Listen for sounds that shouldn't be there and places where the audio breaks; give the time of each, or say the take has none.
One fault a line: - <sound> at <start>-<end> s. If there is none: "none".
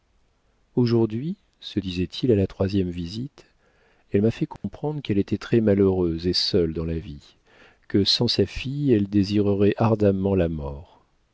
- dropout at 4.6-4.6 s